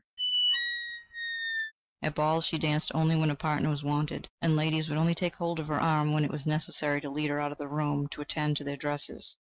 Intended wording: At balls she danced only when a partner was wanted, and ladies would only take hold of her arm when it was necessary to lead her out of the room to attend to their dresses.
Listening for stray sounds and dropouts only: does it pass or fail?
fail